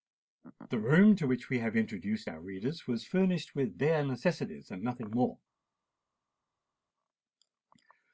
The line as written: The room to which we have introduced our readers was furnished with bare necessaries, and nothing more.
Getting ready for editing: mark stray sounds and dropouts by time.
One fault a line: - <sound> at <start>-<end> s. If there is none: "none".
none